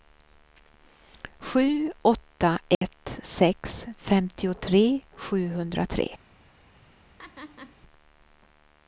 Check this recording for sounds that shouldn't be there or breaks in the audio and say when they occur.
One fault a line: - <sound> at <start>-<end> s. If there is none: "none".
- dropout at 2.7-2.8 s
- laugh at 7.2-7.8 s